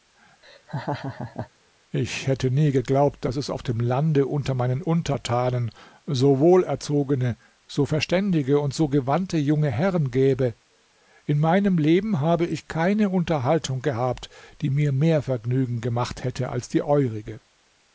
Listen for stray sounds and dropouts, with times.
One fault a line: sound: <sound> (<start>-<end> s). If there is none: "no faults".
sound: laugh (0.4-1.5 s)